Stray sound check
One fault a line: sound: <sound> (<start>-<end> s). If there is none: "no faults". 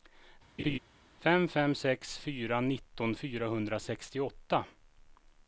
sound: laugh (0.6-0.8 s)